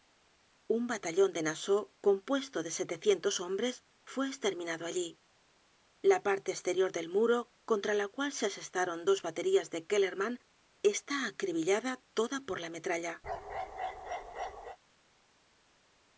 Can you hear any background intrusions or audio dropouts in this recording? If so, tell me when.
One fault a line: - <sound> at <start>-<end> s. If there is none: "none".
- bark at 13.2-14.8 s